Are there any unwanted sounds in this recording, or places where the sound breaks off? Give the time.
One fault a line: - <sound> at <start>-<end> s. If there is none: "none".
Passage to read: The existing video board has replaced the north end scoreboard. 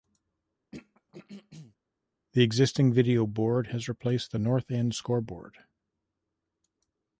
- throat clearing at 0.7-1.8 s